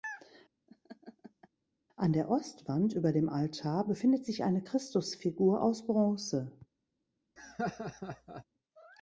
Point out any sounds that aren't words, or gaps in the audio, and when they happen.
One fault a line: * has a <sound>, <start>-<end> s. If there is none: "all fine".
* has a laugh, 0.7-1.5 s
* has a laugh, 7.4-8.4 s